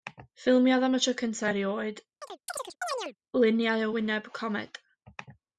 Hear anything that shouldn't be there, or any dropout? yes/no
yes